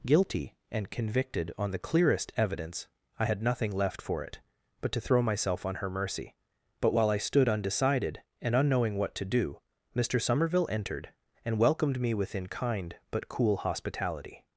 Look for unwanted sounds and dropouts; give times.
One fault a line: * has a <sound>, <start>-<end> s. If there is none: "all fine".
all fine